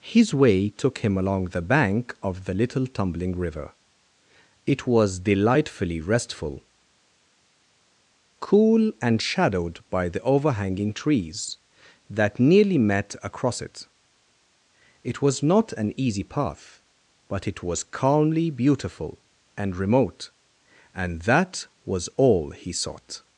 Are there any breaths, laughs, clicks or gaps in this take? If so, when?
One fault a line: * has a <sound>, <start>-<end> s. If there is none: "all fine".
all fine